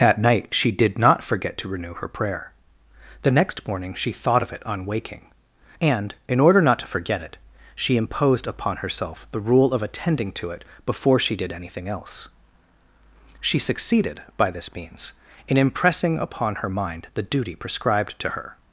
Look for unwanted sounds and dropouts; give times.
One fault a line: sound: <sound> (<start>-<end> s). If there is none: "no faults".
no faults